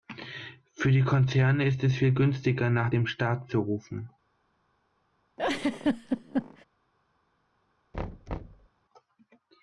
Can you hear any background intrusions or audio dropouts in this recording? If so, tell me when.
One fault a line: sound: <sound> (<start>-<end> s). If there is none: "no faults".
sound: laugh (5.4-6.7 s)
sound: thud (7.9-8.7 s)